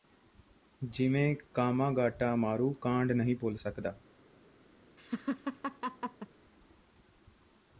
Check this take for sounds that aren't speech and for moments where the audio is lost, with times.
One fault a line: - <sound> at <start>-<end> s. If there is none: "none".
- laugh at 5.0-6.3 s